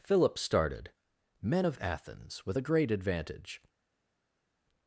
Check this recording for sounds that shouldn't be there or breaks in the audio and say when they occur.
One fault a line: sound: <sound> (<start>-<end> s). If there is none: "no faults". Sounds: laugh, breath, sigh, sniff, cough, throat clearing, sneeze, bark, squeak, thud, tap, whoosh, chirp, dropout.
no faults